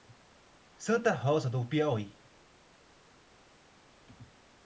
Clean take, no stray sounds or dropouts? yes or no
yes